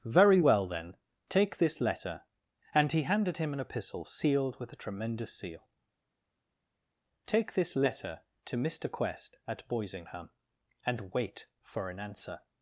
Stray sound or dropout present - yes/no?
no